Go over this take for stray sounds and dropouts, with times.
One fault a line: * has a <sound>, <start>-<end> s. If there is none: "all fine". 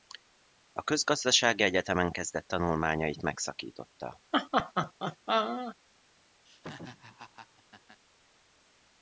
* has a laugh, 4.3-5.8 s
* has a laugh, 6.5-8.0 s